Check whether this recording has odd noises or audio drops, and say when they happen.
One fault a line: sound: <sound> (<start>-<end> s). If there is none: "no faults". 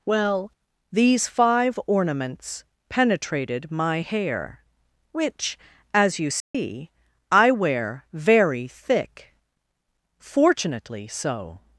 sound: dropout (6.4-6.5 s)